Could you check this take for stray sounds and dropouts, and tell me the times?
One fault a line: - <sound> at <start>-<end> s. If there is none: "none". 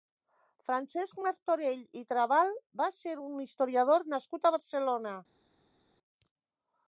none